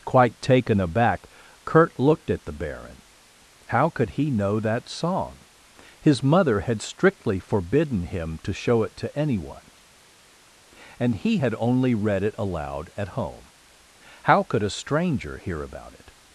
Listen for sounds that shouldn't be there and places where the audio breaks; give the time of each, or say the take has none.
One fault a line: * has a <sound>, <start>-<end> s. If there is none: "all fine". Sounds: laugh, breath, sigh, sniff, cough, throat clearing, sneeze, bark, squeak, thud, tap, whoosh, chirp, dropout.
all fine